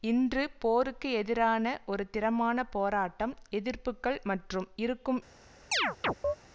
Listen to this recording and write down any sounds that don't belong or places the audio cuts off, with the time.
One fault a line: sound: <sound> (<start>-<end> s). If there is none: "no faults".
sound: chirp (5.7-6.4 s)